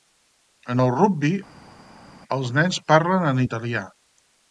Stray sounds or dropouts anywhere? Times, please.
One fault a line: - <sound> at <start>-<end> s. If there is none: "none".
none